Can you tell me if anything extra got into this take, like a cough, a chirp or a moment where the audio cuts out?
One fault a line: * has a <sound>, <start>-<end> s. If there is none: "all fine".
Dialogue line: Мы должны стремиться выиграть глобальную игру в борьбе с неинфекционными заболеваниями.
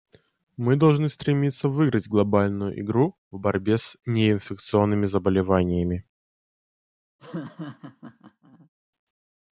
* has a laugh, 7.2-8.7 s